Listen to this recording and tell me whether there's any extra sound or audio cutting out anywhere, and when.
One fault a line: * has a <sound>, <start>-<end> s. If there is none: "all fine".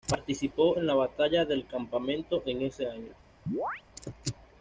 * has a chirp, 3.5-3.8 s